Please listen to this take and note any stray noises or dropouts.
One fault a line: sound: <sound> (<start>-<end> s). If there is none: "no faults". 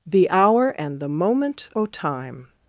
no faults